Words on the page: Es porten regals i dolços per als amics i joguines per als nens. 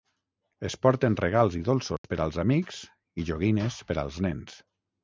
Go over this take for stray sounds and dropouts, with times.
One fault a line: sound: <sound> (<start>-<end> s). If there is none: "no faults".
sound: dropout (2.0-2.0 s)